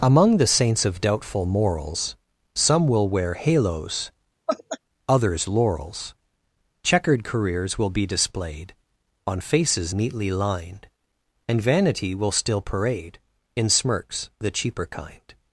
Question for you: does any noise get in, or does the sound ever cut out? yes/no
yes